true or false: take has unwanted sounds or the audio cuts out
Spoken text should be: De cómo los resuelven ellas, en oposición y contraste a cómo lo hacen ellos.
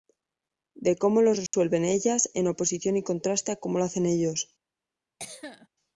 true